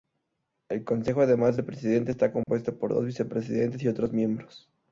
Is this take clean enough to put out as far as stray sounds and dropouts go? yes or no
no